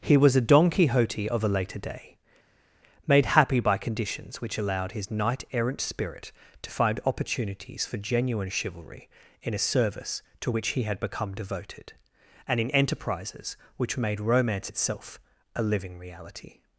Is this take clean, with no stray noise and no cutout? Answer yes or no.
yes